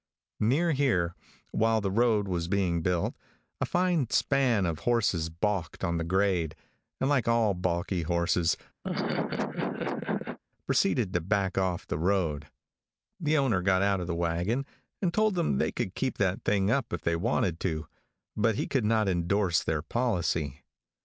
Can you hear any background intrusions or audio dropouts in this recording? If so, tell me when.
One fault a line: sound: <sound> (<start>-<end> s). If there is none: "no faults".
sound: laugh (8.8-10.4 s)